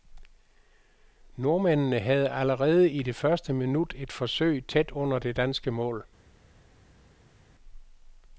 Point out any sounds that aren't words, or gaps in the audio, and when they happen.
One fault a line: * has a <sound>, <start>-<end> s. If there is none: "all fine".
all fine